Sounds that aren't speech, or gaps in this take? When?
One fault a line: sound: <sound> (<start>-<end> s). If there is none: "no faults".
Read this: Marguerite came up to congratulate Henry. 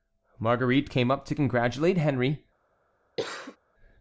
sound: cough (3.2-3.6 s)